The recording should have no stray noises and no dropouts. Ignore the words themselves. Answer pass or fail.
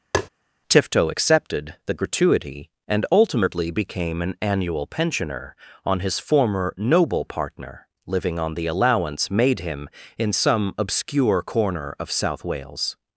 fail